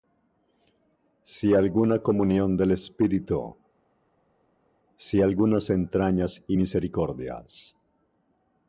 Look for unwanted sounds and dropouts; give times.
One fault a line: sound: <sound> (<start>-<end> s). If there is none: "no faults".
no faults